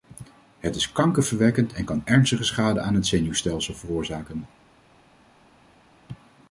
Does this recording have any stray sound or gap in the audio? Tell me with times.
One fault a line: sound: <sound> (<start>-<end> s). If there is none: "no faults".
no faults